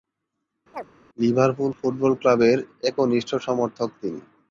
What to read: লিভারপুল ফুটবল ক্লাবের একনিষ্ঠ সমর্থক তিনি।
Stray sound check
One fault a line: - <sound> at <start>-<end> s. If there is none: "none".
- chirp at 0.7-0.9 s